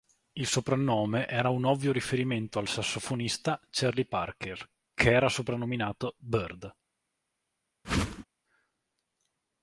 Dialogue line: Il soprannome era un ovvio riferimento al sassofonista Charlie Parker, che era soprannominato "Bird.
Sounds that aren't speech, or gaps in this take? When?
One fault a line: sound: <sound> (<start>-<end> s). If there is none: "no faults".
sound: whoosh (7.8-8.2 s)